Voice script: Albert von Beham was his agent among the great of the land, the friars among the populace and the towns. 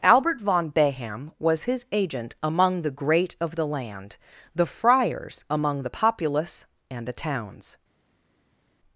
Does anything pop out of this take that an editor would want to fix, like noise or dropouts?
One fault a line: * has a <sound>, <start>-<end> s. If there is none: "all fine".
all fine